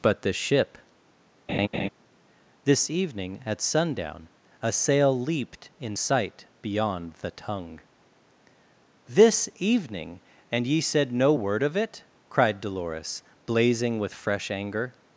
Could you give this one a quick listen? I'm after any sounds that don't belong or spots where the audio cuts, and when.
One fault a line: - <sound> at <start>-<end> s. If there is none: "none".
- laugh at 1.5-1.9 s